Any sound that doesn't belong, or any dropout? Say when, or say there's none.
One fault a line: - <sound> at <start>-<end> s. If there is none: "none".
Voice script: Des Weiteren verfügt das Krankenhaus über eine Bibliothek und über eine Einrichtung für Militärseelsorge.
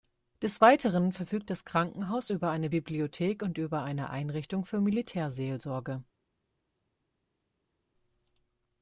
none